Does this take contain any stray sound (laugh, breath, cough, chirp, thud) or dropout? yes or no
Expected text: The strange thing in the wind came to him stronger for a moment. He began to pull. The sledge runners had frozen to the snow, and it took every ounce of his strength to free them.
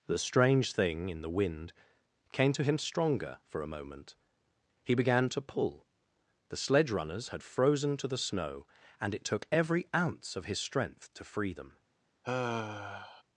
yes